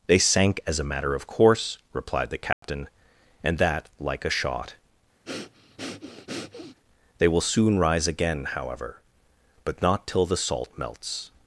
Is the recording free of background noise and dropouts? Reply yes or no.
no